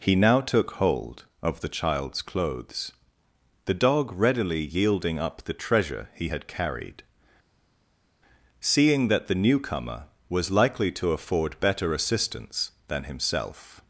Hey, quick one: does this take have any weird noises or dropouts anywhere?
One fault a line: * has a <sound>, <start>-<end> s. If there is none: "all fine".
all fine